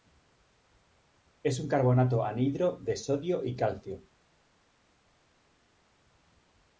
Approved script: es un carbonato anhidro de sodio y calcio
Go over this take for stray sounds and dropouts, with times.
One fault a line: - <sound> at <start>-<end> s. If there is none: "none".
none